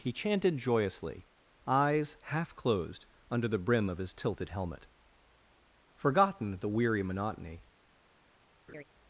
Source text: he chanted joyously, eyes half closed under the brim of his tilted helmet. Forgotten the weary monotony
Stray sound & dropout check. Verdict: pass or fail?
fail